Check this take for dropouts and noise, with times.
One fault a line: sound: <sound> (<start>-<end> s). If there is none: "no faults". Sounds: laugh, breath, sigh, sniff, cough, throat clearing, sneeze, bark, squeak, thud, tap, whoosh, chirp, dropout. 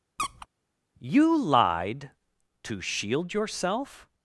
sound: squeak (0.2-0.5 s)